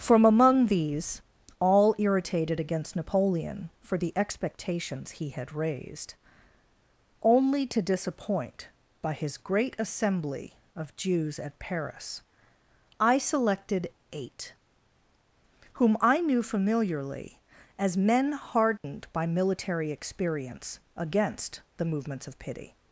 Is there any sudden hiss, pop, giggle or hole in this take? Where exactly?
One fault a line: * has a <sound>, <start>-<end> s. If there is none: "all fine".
* has a dropout, 18.8-18.8 s